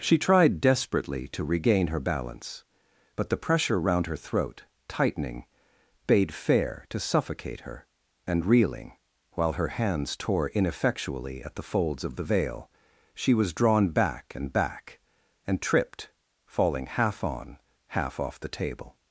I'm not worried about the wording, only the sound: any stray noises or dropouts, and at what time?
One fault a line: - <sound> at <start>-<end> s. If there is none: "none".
none